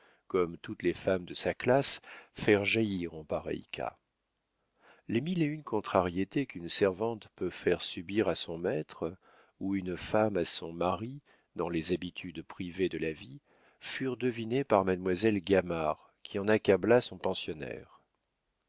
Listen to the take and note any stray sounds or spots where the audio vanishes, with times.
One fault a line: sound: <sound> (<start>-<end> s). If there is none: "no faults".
no faults